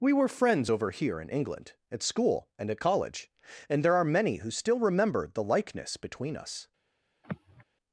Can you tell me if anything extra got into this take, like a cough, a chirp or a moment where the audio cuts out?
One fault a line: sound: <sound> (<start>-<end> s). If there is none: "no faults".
sound: sigh (7.2-7.6 s)